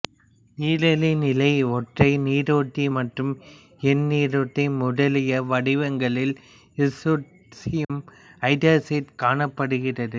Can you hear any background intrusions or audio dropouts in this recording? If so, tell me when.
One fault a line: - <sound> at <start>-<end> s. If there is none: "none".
- dropout at 7.8-7.9 s